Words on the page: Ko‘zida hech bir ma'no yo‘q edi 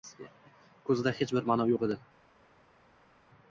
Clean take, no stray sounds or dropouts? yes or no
yes